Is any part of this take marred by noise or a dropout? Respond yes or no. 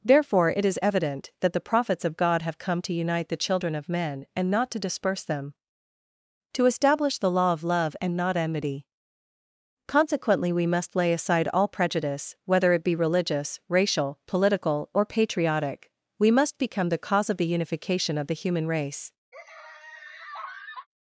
yes